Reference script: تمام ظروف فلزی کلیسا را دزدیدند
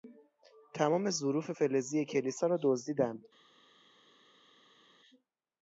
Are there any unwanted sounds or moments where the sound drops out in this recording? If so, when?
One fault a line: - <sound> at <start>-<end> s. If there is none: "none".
none